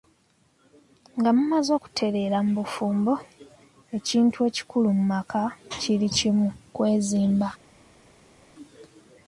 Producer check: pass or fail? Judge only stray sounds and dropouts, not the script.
pass